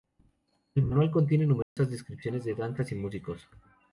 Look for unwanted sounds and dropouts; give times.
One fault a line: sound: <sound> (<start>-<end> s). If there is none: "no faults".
sound: dropout (1.6-1.8 s)